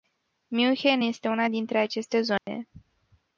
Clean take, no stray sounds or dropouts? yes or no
no